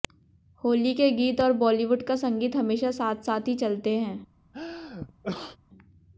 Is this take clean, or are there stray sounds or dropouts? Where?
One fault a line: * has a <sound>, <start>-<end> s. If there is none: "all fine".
* has a sneeze, 4.5-5.6 s